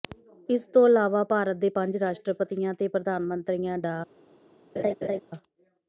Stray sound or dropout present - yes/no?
yes